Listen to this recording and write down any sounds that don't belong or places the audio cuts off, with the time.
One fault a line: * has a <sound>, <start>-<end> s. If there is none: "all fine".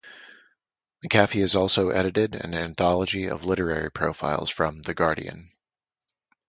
all fine